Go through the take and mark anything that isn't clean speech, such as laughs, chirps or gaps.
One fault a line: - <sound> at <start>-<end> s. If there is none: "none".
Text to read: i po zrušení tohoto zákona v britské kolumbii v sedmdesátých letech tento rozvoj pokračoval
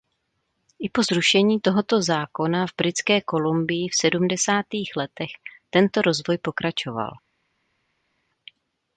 none